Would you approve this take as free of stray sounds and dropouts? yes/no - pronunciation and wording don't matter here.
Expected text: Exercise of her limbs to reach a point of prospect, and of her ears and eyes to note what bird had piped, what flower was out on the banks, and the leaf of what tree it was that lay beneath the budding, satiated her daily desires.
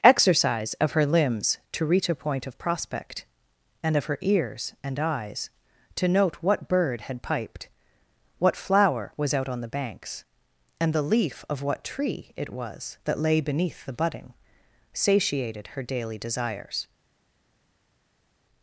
yes